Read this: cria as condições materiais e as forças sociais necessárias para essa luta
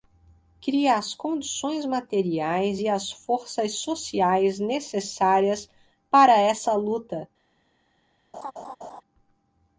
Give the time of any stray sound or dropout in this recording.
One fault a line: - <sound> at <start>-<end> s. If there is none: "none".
- laugh at 8.3-9.0 s